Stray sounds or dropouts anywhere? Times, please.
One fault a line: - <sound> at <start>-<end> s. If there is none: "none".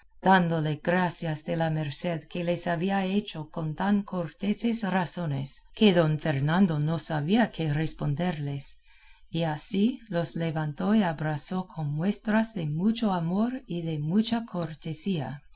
none